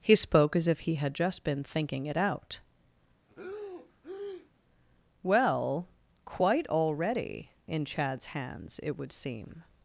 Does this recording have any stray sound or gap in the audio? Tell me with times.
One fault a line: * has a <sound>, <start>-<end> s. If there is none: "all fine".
* has a breath, 3.3-4.5 s